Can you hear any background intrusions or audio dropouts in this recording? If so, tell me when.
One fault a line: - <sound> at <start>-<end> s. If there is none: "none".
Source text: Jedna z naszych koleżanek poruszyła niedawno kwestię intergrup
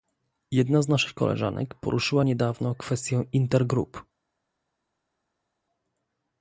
none